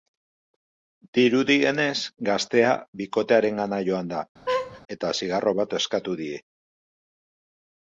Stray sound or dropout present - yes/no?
yes